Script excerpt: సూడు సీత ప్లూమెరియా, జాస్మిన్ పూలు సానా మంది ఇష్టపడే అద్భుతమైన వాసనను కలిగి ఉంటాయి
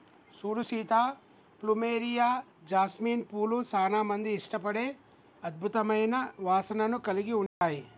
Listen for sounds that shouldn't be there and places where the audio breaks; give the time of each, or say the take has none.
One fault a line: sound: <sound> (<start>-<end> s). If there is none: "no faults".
sound: dropout (7.5-7.6 s)